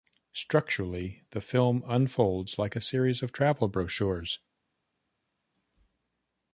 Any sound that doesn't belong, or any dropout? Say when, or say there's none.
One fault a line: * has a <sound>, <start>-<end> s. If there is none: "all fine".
all fine